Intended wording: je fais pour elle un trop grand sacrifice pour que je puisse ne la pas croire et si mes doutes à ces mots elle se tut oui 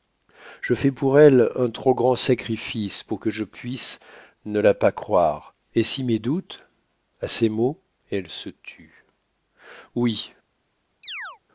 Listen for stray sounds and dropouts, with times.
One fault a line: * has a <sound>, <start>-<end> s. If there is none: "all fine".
* has a chirp, 11.0-11.4 s